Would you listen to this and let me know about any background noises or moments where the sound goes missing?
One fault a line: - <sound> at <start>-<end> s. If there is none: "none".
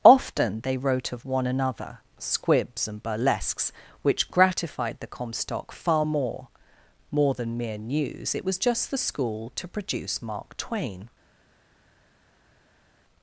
none